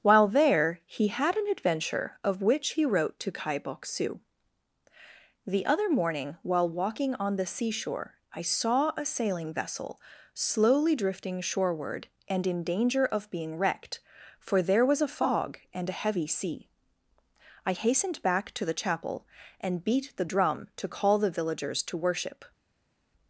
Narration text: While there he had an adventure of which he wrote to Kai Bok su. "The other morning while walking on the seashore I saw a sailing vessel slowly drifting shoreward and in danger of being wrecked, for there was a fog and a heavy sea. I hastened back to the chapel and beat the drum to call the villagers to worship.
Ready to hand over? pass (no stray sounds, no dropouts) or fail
pass